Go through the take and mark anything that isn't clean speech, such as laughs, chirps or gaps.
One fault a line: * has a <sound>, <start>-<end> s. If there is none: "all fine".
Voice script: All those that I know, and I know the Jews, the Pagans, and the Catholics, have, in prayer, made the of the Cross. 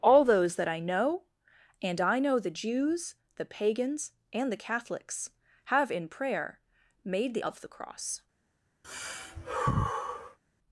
* has a sigh, 8.8-10.4 s